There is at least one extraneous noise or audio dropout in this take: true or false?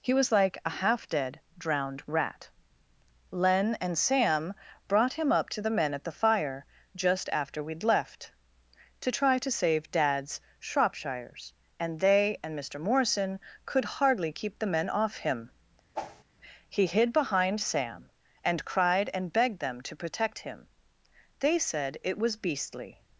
true